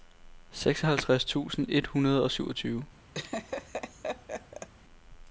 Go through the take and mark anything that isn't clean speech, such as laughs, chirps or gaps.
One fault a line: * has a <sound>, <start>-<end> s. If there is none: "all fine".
* has a laugh, 3.1-4.7 s